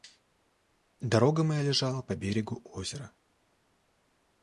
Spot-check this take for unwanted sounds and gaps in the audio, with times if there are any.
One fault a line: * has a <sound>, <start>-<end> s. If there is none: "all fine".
all fine